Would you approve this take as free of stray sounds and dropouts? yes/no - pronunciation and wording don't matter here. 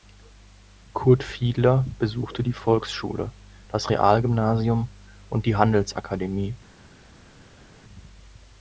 yes